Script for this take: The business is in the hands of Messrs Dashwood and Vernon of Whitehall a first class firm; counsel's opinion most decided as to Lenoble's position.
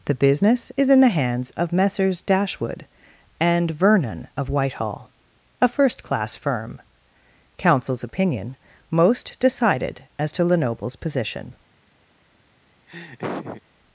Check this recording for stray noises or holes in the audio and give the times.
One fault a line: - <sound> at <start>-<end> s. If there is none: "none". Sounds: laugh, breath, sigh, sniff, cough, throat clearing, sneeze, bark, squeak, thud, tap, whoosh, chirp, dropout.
- laugh at 12.9-13.6 s